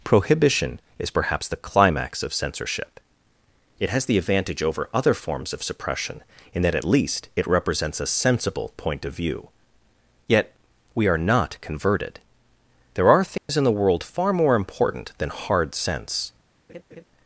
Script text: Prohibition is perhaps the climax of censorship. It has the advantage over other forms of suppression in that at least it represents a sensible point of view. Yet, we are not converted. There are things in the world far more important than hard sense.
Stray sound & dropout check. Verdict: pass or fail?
fail